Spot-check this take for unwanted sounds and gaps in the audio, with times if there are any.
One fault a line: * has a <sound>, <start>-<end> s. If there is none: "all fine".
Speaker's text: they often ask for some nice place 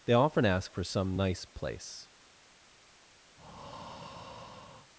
* has a breath, 3.4-4.9 s